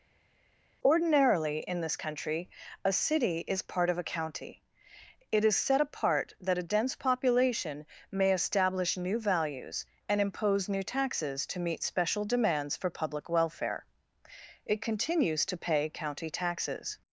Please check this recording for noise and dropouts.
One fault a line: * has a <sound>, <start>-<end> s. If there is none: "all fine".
all fine